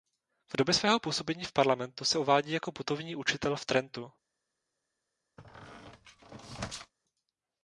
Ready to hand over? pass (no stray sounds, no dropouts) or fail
fail